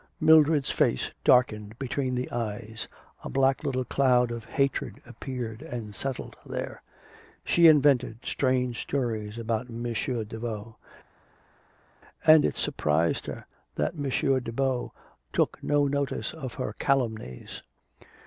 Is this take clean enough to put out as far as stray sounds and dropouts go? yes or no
yes